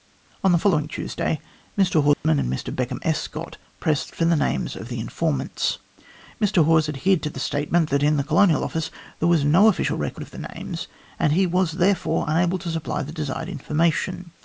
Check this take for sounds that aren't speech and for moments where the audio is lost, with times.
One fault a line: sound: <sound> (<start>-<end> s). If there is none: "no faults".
sound: dropout (2.1-2.2 s)